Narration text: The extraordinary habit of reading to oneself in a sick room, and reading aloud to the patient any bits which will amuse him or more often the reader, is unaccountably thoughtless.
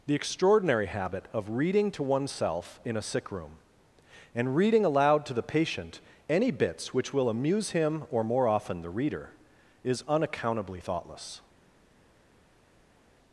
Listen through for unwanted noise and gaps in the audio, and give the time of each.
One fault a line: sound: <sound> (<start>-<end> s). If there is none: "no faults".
no faults